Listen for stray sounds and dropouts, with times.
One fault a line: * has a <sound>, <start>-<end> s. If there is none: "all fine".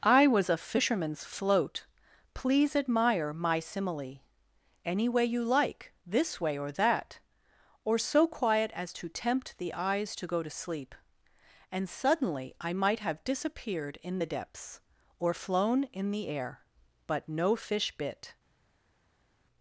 all fine